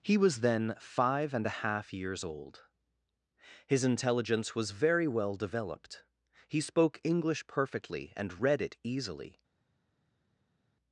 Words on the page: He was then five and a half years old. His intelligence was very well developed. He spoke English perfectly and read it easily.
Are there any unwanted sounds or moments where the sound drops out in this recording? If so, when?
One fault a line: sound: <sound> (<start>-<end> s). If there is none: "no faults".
no faults